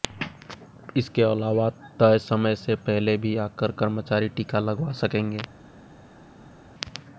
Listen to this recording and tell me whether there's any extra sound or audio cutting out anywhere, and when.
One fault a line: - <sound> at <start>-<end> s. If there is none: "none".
none